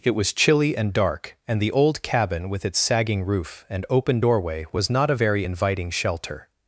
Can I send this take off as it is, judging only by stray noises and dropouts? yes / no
yes